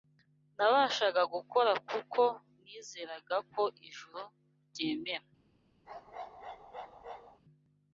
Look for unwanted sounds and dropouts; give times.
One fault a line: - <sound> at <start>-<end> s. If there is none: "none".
- bark at 5.9-7.4 s